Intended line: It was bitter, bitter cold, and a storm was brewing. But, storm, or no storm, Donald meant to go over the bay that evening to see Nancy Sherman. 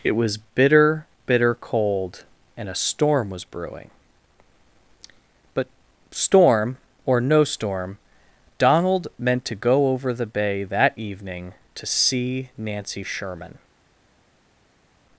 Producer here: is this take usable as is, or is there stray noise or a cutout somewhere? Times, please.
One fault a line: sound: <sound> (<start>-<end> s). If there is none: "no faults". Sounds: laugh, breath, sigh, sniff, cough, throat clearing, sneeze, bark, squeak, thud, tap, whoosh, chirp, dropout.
no faults